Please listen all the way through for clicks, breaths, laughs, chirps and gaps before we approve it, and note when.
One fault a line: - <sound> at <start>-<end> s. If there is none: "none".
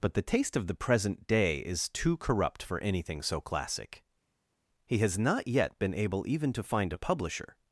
none